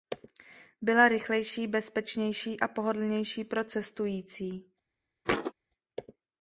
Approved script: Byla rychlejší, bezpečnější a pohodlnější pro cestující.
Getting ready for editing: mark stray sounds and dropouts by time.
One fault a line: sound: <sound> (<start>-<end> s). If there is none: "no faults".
sound: thud (5.2-5.5 s)